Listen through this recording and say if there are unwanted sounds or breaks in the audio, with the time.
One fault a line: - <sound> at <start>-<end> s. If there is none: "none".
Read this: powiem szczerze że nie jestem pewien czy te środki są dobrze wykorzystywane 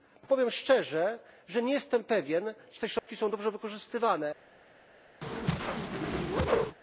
- dropout at 3.0-3.1 s
- whoosh at 5.2-6.8 s